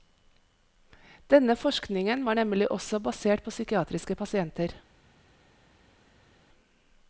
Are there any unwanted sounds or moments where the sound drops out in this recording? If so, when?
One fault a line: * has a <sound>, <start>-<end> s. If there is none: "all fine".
all fine